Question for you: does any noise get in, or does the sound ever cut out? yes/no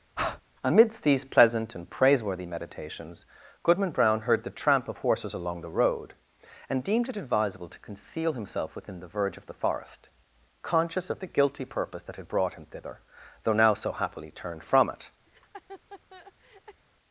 yes